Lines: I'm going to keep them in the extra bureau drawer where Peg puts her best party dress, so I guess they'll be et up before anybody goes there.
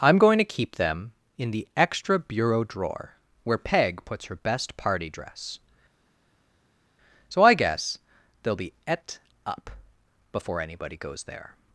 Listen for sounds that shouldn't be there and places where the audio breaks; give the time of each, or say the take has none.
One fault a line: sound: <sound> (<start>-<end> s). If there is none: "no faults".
no faults